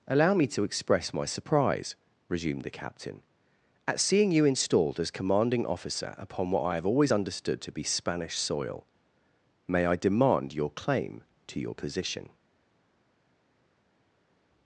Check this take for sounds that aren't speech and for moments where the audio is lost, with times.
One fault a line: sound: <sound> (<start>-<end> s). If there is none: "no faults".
no faults